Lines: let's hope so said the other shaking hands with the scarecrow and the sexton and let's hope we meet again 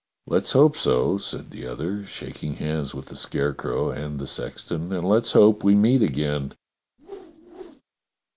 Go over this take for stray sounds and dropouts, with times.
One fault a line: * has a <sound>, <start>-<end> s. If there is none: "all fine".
* has a whoosh, 7.0-7.8 s